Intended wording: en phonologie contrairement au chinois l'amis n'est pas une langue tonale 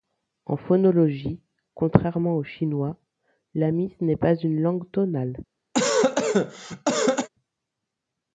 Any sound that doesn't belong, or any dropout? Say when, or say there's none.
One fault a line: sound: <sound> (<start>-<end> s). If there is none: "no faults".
sound: cough (5.7-7.3 s)